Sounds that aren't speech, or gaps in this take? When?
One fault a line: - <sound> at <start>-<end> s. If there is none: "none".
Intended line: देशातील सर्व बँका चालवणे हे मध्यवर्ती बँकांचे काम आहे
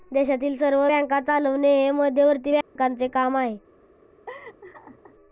- dropout at 2.6-2.8 s
- laugh at 4.3-5.2 s